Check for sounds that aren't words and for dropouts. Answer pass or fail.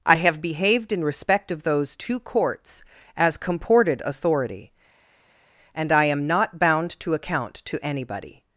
pass